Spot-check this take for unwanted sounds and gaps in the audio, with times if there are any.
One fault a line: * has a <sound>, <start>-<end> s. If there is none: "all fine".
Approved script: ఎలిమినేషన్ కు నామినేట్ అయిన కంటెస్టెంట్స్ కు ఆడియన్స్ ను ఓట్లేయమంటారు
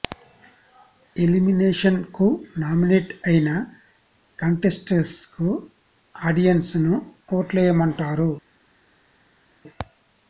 all fine